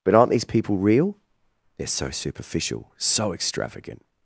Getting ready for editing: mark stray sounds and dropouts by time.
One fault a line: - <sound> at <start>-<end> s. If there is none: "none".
none